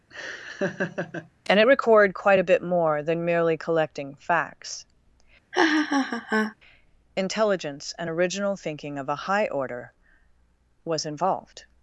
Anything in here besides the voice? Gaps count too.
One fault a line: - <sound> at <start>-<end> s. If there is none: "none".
- laugh at 0.1-1.3 s
- laugh at 5.5-6.5 s